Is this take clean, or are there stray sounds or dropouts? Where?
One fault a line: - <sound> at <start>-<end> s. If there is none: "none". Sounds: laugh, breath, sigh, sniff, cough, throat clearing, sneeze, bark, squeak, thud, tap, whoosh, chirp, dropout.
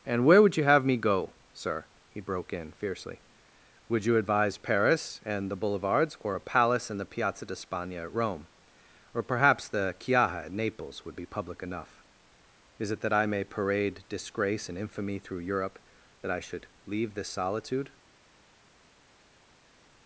none